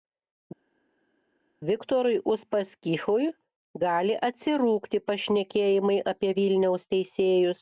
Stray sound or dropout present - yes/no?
no